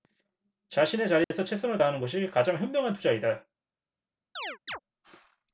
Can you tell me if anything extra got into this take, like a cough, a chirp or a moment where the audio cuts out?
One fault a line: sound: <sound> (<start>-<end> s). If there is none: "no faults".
sound: dropout (1.2-1.3 s)
sound: chirp (4.4-4.8 s)